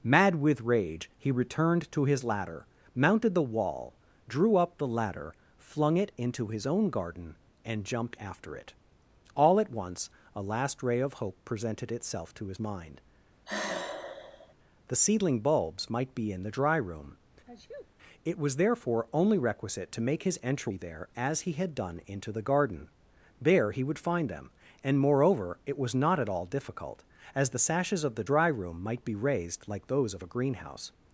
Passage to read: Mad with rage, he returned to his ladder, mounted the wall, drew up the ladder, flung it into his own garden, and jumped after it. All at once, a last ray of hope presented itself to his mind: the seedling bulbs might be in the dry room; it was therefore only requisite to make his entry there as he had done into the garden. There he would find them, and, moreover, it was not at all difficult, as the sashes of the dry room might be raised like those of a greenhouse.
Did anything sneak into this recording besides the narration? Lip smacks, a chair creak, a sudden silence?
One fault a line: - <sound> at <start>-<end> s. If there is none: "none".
- sigh at 13.5-14.5 s
- sneeze at 17.5-17.9 s